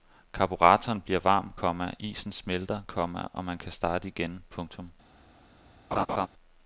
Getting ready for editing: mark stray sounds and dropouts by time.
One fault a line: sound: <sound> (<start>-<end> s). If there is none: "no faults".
sound: laugh (5.9-6.3 s)